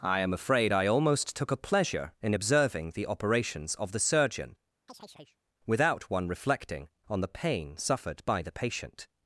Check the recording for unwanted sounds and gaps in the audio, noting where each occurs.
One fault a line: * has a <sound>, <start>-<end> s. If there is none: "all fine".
* has a chirp, 4.9-5.4 s